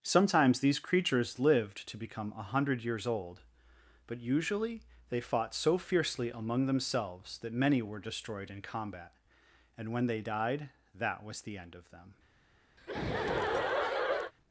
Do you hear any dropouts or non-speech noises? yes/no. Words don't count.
yes